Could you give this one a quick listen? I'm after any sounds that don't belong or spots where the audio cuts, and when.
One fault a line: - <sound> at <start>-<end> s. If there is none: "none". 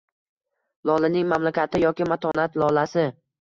- dropout at 2.3-2.3 s